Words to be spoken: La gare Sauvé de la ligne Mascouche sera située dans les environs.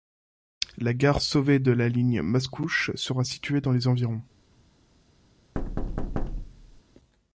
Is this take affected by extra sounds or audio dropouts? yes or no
yes